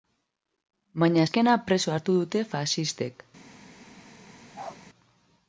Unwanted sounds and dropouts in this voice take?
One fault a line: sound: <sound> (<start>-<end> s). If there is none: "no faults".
sound: bark (4.5-4.8 s)